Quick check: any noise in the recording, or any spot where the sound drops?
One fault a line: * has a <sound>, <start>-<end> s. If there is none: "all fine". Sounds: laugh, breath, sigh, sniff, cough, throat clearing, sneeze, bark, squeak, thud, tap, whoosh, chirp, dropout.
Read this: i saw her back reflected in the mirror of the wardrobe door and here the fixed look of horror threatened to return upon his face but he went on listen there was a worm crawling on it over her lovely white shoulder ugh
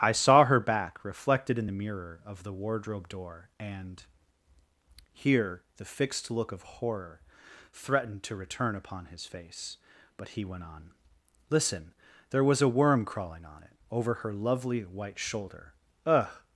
all fine